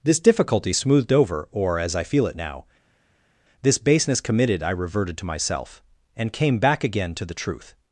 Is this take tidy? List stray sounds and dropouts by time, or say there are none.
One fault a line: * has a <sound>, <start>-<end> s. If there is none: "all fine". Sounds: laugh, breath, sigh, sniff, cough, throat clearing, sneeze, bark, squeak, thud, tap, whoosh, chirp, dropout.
all fine